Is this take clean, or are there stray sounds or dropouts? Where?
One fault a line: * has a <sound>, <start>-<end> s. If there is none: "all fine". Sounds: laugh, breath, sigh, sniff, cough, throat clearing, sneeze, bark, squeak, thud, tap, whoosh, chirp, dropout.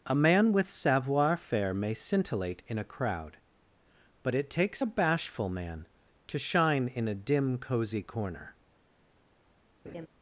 * has a laugh, 9.8-10.1 s